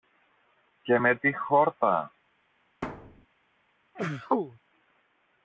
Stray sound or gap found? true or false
true